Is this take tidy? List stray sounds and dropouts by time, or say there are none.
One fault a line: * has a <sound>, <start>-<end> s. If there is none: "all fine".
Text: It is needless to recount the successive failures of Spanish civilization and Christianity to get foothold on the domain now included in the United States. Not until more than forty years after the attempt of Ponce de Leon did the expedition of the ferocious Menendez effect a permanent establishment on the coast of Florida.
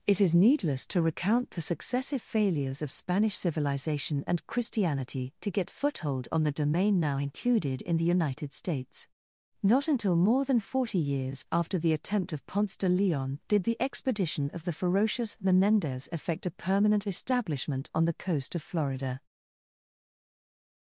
all fine